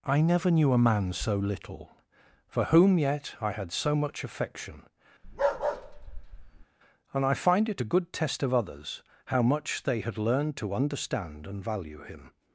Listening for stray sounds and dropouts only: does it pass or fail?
fail